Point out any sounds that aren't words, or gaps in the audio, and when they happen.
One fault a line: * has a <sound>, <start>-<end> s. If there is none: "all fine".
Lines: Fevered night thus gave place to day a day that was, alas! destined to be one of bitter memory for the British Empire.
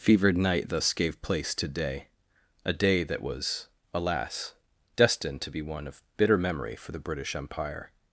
all fine